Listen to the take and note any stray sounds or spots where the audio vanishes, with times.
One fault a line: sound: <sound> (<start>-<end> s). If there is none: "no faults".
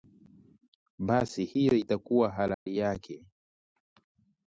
sound: dropout (2.5-2.7 s)